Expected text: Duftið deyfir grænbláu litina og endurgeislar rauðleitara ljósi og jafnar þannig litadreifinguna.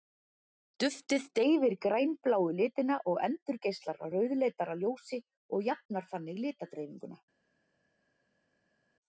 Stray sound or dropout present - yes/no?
no